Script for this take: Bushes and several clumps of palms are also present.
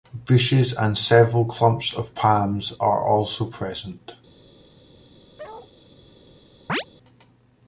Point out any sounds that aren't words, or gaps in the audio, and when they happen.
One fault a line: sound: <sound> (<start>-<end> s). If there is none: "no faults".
sound: bark (5.4-5.7 s)
sound: chirp (6.7-6.8 s)